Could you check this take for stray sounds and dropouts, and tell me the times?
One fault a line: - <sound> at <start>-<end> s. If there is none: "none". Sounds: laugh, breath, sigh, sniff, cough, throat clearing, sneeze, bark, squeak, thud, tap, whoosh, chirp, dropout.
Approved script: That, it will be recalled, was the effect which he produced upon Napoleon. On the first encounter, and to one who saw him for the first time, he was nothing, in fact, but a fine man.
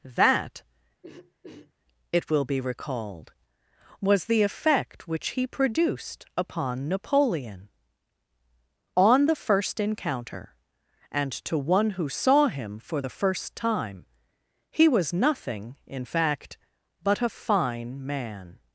- throat clearing at 1.0-1.7 s